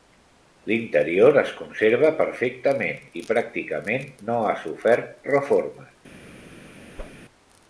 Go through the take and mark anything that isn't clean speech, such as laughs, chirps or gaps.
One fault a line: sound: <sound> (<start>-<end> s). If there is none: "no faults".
sound: whoosh (7.0-7.2 s)